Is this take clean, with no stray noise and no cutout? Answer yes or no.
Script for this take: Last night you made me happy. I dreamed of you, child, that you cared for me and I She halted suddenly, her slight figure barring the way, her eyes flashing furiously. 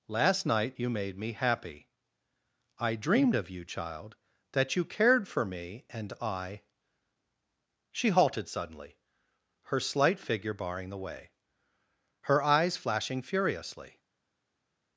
yes